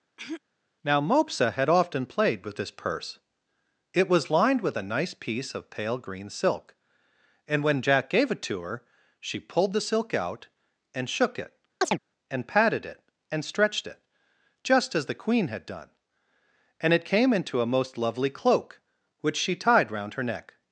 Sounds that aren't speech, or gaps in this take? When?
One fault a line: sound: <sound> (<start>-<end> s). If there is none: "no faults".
sound: throat clearing (0.2-0.4 s)
sound: chirp (11.8-12.0 s)